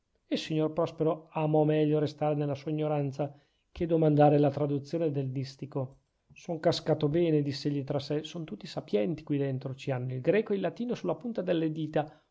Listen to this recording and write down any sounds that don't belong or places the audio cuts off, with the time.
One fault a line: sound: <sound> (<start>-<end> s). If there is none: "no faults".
no faults